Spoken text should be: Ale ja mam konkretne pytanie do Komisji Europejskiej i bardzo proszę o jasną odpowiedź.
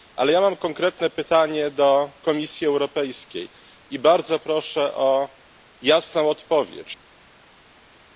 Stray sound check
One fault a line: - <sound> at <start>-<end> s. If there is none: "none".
none